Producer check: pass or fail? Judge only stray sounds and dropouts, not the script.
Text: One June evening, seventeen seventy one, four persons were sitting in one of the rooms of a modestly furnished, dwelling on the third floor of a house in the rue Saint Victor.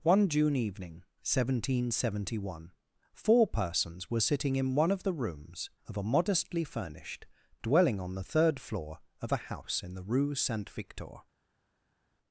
pass